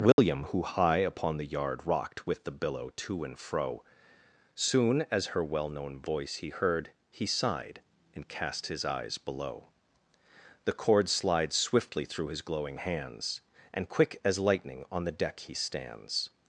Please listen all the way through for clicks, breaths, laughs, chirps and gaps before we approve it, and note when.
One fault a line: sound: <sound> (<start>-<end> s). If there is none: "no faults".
sound: dropout (0.1-0.2 s)